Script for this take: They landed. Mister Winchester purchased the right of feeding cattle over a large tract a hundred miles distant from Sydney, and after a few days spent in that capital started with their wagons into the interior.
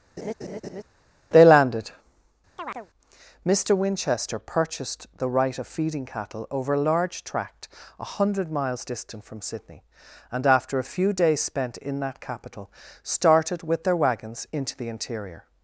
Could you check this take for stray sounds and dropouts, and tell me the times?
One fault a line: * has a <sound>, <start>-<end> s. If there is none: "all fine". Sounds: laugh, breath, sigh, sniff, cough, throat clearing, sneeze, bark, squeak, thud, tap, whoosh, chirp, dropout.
* has a laugh, 0.2-0.8 s
* has a chirp, 2.6-2.9 s